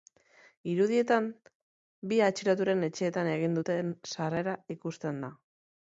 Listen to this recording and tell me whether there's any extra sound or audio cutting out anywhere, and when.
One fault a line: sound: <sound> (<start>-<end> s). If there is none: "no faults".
no faults